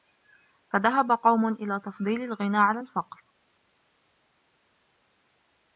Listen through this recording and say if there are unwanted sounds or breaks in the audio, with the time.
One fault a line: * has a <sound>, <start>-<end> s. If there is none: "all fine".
all fine